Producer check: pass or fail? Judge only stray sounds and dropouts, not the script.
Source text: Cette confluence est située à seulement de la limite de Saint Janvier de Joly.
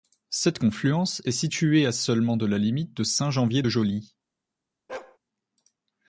fail